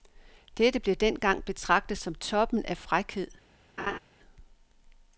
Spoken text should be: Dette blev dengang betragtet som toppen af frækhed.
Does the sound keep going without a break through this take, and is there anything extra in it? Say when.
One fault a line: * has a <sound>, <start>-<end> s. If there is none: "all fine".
* has a laugh, 3.8-4.0 s